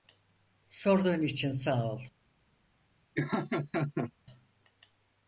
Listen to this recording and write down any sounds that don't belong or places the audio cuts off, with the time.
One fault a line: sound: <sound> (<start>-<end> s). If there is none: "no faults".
sound: laugh (3.2-4.1 s)